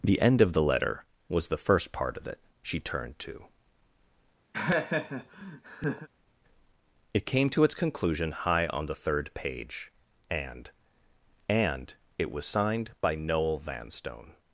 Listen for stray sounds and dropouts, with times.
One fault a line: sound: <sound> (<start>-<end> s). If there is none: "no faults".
sound: laugh (4.5-6.1 s)